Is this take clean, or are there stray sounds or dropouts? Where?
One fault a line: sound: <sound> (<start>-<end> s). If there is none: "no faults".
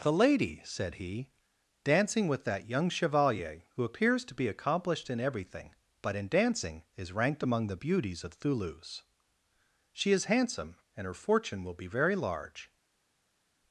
no faults